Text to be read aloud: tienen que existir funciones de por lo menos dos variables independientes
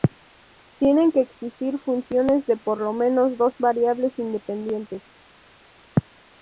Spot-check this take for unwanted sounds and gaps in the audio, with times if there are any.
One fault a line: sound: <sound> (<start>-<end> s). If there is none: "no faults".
no faults